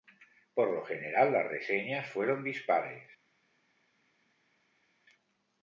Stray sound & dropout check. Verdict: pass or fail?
pass